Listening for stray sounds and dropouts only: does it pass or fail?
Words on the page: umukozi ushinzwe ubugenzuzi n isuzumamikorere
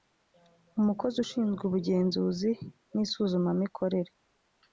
pass